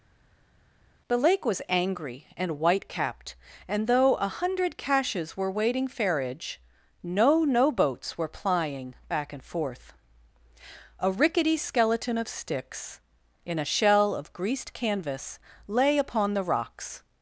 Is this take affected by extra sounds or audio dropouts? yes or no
no